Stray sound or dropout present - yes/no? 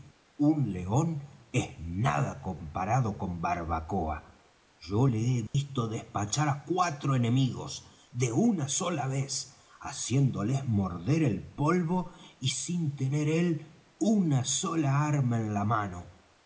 yes